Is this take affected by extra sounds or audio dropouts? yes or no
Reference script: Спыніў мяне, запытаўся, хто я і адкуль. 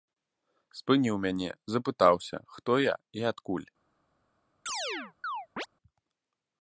yes